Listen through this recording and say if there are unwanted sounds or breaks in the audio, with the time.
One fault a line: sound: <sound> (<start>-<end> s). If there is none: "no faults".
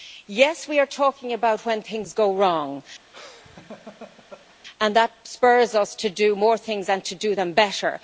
sound: laugh (3.1-4.6 s)